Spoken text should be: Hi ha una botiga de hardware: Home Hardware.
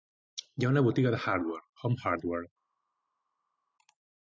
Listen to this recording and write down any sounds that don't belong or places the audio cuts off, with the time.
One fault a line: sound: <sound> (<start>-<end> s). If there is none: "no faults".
no faults